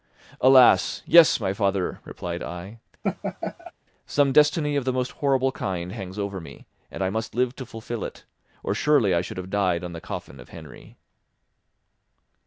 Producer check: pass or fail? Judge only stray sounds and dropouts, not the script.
fail